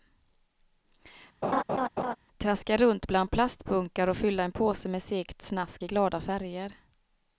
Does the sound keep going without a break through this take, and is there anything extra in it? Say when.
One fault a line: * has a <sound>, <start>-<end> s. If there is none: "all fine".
* has a laugh, 1.4-2.2 s